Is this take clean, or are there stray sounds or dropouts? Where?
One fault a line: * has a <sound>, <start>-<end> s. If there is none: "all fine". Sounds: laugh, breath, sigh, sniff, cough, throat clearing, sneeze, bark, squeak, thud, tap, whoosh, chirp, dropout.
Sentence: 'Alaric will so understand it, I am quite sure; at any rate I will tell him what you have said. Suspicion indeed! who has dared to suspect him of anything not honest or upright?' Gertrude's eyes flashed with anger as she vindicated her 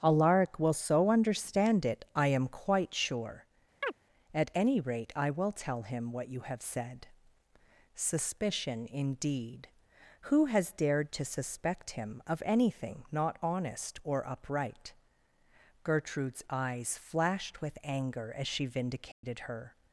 * has a chirp, 3.8-3.9 s
* has a dropout, 19.1-19.2 s